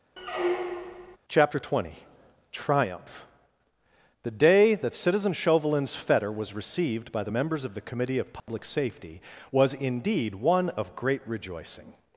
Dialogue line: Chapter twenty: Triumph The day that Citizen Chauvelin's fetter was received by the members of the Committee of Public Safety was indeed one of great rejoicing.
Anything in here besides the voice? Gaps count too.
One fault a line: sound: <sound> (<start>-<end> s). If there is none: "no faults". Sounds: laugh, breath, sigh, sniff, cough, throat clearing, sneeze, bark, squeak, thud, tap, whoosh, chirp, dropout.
sound: squeak (0.2-1.2 s)
sound: dropout (8.4-8.5 s)